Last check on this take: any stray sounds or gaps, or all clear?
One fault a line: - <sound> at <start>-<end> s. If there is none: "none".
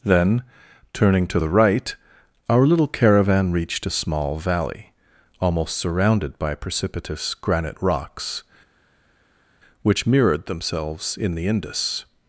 none